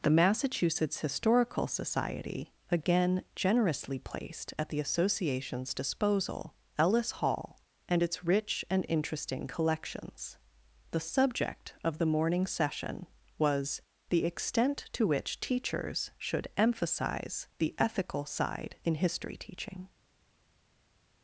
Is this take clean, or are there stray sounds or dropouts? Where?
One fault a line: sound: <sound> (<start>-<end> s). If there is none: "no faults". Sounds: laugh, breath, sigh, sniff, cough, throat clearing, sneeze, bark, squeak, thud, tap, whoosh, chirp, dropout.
no faults